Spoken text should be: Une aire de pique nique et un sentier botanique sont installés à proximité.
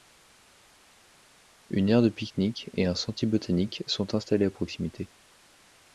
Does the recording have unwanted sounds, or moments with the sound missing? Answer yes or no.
no